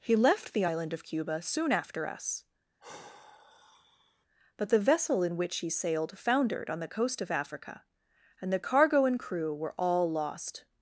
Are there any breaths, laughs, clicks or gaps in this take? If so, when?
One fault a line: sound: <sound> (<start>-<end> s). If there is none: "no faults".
sound: sigh (2.8-4.3 s)